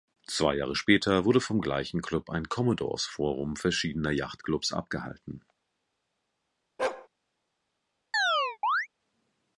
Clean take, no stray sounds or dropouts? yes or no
no